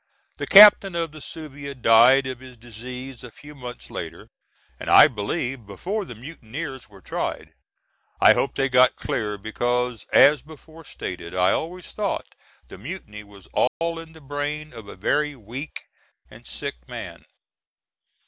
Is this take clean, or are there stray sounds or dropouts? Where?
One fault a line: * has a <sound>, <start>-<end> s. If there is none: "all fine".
* has a dropout, 13.7-13.8 s